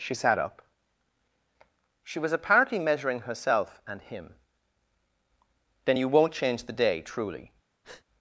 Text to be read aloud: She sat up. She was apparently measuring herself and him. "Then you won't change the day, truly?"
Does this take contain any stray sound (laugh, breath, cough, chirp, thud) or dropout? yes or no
yes